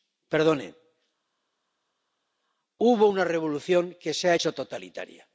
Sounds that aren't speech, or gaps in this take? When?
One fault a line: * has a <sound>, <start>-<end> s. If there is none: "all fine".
all fine